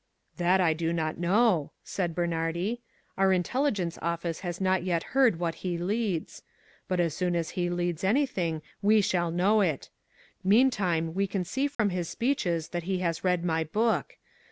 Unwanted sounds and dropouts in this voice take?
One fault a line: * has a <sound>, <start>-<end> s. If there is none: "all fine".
* has a dropout, 11.7-11.8 s